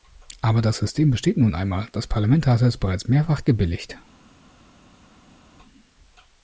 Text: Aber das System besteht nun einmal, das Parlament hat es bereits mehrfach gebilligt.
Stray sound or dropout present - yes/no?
no